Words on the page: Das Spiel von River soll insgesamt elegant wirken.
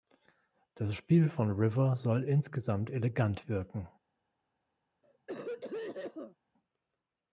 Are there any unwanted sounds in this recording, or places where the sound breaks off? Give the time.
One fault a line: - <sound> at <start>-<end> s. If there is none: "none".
- cough at 5.0-6.4 s